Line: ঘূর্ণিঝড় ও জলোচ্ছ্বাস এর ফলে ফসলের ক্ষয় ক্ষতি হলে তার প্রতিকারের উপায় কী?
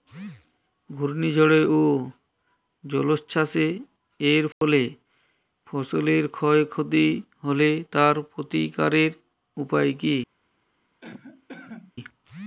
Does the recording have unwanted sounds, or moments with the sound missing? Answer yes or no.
yes